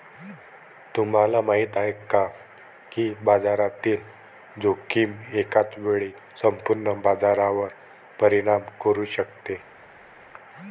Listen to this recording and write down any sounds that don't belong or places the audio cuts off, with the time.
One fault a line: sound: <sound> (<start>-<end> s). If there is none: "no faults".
no faults